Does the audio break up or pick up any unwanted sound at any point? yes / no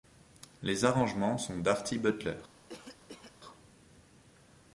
yes